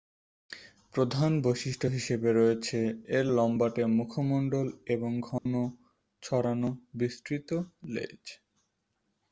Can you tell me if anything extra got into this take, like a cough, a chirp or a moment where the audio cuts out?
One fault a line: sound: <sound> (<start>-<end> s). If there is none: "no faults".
sound: dropout (5.4-5.5 s)